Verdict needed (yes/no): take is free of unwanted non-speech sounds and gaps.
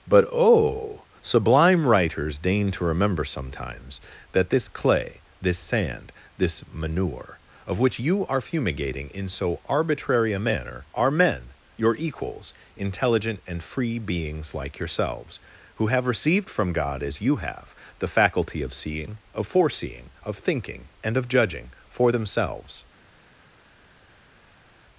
yes